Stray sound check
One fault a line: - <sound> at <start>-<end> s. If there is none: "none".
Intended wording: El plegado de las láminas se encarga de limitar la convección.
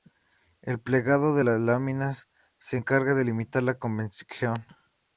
none